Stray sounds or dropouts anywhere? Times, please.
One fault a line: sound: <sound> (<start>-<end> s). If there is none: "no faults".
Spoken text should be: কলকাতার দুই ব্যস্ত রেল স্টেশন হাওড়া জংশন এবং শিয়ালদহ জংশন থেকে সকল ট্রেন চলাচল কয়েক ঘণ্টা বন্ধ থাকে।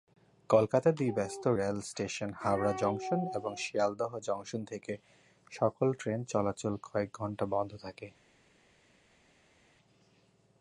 no faults